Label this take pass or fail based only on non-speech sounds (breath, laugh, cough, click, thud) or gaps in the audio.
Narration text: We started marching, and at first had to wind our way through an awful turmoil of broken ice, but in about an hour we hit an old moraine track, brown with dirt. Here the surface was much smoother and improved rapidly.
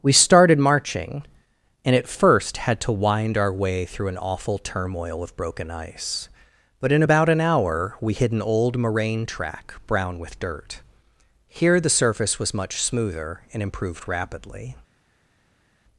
pass